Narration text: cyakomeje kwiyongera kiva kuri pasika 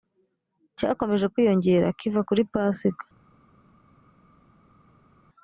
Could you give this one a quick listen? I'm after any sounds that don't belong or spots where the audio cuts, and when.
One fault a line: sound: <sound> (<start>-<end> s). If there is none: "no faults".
no faults